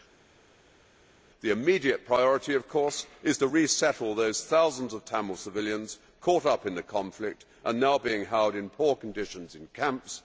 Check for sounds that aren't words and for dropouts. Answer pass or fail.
pass